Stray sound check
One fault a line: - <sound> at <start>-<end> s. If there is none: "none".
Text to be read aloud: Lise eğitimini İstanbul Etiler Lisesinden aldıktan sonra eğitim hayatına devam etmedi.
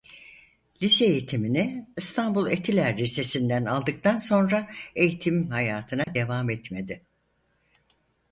- dropout at 6.0-6.1 s